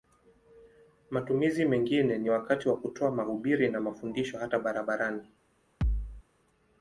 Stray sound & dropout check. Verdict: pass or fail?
fail